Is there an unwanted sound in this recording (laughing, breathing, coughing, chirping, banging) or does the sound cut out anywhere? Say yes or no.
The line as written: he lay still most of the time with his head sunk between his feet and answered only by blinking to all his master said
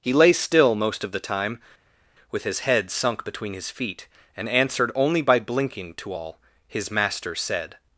no